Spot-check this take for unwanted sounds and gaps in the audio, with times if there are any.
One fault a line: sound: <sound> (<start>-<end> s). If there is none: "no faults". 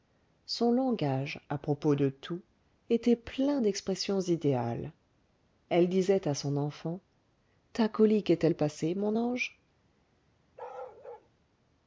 sound: bark (10.6-11.3 s)